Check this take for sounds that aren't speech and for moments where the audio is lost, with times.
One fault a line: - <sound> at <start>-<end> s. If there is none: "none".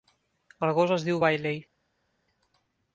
none